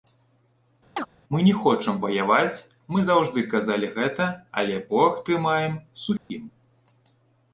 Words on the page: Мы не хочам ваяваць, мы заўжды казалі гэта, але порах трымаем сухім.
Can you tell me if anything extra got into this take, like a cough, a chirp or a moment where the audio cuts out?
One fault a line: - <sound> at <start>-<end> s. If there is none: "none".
- chirp at 1.0-1.1 s
- dropout at 6.2-6.3 s